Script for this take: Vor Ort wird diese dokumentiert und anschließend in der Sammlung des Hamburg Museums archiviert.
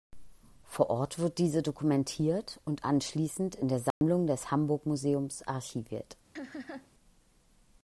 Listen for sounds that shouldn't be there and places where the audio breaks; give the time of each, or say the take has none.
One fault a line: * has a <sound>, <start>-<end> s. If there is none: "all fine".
* has a dropout, 3.9-4.0 s
* has a laugh, 6.4-6.9 s